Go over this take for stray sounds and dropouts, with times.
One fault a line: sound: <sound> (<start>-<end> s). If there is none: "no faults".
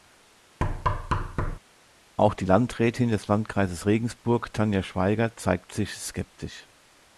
sound: thud (0.6-1.6 s)